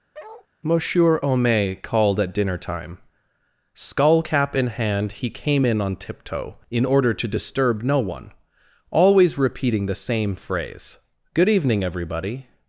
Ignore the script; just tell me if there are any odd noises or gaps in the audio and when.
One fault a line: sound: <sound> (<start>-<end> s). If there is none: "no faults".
sound: bark (0.1-0.5 s)